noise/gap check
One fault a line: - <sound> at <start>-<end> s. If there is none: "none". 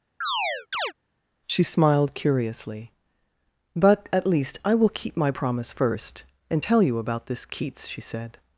- chirp at 0.2-0.9 s